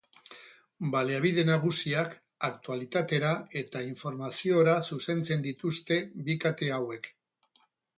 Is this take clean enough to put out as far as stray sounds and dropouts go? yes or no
yes